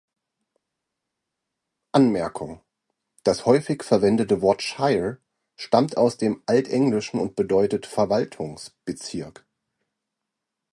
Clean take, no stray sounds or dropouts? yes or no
yes